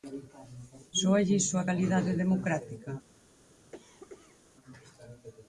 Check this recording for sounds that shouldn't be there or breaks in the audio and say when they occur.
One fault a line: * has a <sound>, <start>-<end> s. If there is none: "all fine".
* has a cough, 3.7-4.4 s